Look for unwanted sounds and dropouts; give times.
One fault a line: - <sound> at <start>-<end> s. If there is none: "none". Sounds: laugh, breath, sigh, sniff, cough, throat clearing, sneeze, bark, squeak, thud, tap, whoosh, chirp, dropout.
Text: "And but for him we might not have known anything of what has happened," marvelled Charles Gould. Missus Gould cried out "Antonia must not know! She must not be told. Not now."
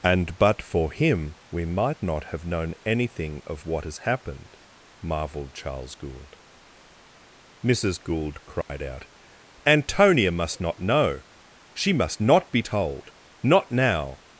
- dropout at 8.6-8.7 s